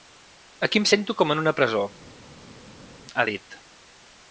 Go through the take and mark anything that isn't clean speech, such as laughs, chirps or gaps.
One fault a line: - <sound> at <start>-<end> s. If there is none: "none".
none